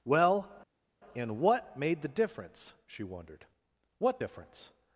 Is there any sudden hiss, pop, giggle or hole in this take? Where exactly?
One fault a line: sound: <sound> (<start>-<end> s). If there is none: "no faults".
no faults